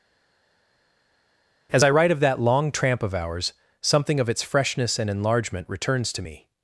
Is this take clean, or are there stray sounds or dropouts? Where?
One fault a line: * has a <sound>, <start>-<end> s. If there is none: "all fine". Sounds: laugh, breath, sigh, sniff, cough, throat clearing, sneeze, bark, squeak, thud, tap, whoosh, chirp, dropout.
all fine